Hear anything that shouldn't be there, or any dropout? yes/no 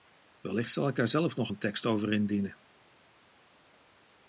no